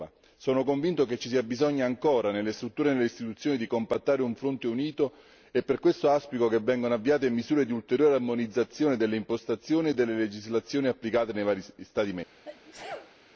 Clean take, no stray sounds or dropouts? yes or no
no